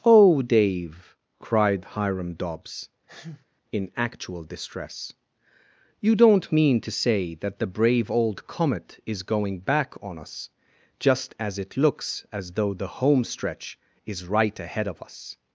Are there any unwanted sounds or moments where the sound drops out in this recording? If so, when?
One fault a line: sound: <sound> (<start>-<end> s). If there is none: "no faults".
sound: sneeze (3.1-3.5 s)